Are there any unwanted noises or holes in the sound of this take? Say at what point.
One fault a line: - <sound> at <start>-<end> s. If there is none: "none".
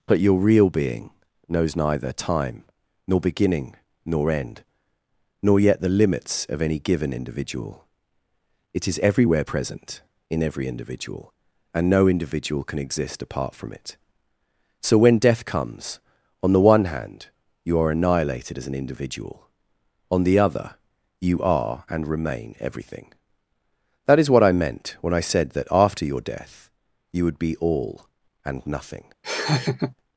- laugh at 29.2-29.9 s